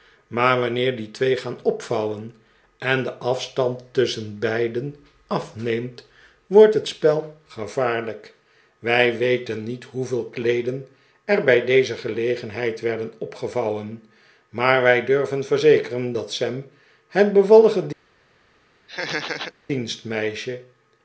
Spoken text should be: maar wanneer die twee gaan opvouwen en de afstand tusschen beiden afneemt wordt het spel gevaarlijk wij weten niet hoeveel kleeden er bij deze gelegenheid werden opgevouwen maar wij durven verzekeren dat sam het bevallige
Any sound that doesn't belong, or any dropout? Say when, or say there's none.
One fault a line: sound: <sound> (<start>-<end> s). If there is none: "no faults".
sound: laugh (18.9-19.5 s)